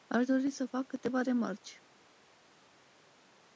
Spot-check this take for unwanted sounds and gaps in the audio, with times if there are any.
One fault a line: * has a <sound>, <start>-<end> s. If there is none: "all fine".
all fine